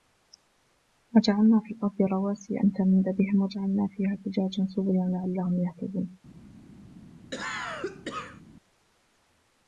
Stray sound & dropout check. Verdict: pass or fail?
fail